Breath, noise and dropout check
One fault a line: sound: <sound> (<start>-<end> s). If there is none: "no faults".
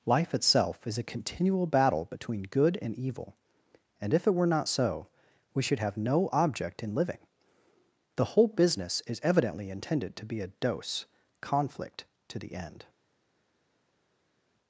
no faults